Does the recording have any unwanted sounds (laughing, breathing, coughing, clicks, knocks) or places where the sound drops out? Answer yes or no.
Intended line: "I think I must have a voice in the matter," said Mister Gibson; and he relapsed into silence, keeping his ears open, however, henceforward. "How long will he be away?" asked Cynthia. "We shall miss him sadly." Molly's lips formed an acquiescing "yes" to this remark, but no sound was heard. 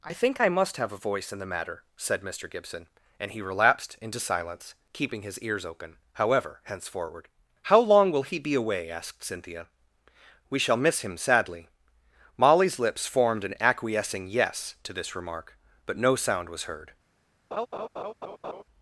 yes